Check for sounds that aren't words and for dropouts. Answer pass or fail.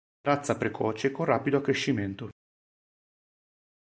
pass